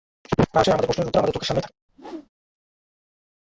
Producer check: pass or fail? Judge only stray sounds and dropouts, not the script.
fail